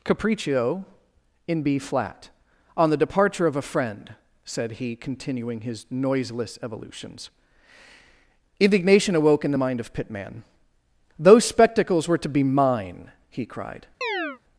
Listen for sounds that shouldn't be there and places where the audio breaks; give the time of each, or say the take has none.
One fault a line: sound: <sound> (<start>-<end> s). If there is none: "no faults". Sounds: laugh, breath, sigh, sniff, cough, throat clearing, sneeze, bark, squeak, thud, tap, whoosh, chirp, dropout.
sound: chirp (14.0-14.4 s)